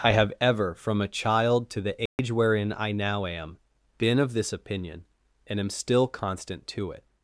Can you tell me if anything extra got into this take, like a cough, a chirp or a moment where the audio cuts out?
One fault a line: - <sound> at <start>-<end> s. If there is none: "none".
- dropout at 2.1-2.2 s